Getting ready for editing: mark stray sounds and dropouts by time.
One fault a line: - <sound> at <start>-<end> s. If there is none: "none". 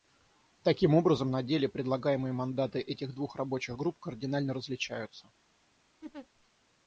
- laugh at 6.0-6.3 s